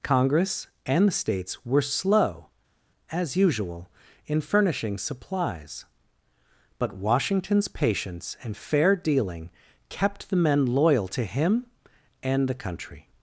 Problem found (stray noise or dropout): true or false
false